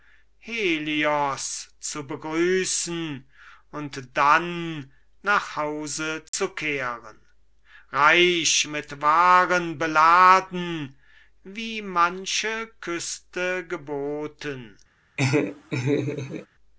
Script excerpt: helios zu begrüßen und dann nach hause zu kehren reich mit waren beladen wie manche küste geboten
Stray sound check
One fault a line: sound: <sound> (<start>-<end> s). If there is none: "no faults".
sound: dropout (6.3-6.3 s)
sound: laugh (15.2-16.5 s)